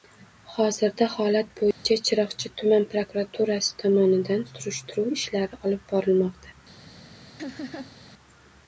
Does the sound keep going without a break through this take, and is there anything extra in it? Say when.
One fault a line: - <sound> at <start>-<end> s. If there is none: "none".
- dropout at 1.7-1.9 s
- laugh at 7.4-8.0 s